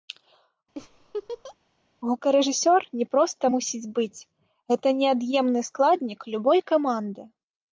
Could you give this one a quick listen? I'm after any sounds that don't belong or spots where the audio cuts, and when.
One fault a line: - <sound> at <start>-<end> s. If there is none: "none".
- laugh at 0.8-1.6 s